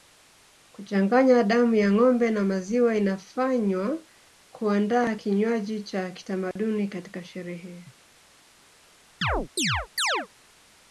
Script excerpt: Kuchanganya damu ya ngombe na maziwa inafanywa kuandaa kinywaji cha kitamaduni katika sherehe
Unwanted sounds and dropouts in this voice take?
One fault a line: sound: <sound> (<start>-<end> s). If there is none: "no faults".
sound: dropout (6.5-6.6 s)
sound: chirp (9.2-10.3 s)